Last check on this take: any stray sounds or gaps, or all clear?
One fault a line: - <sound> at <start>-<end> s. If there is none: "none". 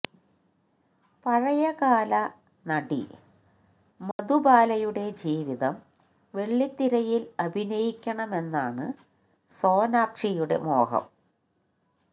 - dropout at 4.1-4.2 s